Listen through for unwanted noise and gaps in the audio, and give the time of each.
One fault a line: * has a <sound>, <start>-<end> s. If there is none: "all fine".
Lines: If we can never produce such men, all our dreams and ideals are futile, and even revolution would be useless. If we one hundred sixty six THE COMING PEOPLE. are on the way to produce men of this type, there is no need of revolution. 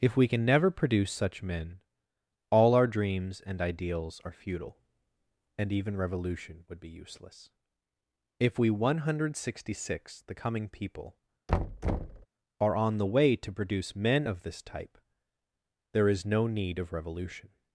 * has a thud, 11.5-12.3 s